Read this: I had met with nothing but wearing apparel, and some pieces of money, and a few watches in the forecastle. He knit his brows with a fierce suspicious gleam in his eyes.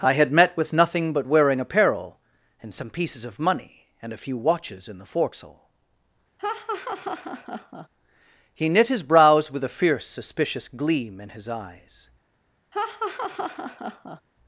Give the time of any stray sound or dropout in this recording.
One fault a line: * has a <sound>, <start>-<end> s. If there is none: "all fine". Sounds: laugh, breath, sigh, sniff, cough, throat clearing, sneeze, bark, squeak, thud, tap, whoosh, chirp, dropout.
* has a laugh, 6.4-7.9 s
* has a laugh, 12.7-14.2 s